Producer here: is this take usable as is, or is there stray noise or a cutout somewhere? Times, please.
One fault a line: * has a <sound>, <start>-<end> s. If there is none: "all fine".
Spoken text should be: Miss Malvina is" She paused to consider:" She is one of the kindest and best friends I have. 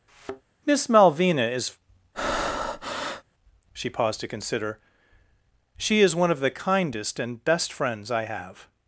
* has a thud, 0.1-0.4 s
* has a breath, 2.1-3.2 s